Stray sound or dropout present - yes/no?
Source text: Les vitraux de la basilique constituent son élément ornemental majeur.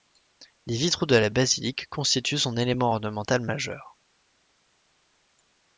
no